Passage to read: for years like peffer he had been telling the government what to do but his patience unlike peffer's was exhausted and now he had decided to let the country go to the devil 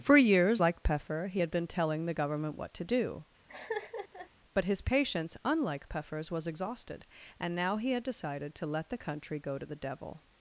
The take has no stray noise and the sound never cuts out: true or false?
false